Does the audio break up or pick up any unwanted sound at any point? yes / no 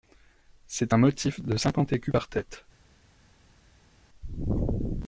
no